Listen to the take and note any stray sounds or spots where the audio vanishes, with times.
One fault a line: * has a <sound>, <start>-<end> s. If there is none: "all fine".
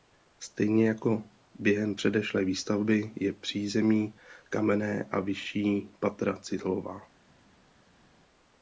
all fine